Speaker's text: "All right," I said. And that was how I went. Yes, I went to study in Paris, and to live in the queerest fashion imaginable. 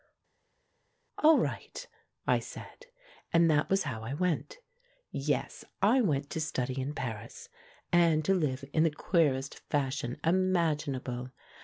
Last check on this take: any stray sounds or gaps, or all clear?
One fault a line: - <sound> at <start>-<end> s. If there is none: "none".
none